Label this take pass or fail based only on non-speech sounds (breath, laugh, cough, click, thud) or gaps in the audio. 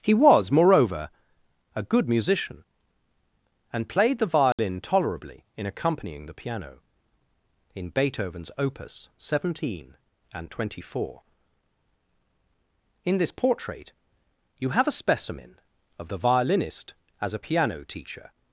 fail